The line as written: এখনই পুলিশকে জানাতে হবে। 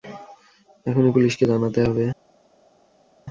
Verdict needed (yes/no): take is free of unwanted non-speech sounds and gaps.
yes